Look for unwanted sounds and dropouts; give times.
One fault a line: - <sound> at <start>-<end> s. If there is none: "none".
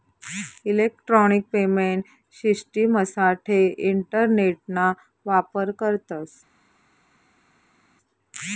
none